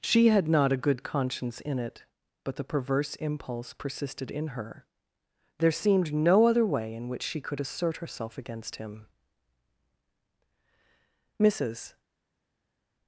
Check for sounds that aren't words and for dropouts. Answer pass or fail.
pass